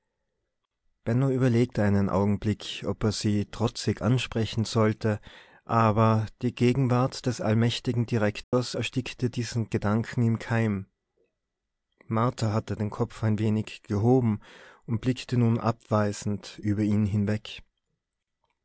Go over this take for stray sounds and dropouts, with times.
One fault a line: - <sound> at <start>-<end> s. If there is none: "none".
- dropout at 8.4-8.5 s